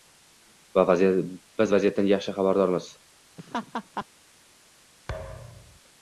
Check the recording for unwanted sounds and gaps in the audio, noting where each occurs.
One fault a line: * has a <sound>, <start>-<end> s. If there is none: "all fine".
* has a laugh, 3.4-4.1 s
* has a thud, 5.1-5.8 s